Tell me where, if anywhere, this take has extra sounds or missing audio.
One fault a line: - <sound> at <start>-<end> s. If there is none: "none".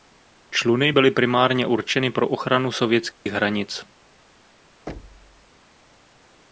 - dropout at 3.1-3.3 s
- thud at 4.9-5.5 s